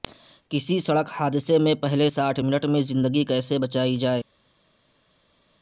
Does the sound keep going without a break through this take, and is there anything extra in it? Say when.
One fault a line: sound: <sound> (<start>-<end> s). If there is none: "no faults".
no faults